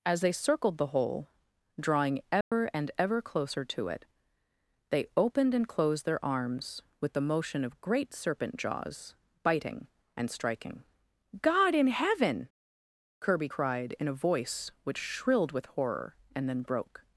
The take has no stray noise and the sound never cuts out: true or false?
false